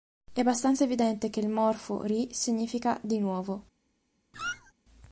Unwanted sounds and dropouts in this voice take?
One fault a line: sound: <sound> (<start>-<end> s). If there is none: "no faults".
sound: squeak (4.3-4.7 s)